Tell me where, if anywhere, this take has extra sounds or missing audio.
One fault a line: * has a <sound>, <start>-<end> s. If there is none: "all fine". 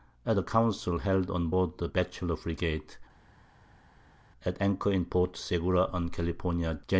all fine